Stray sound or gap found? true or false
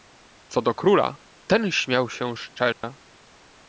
true